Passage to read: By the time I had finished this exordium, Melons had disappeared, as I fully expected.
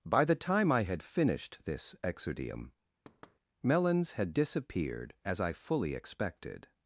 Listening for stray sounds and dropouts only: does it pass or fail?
fail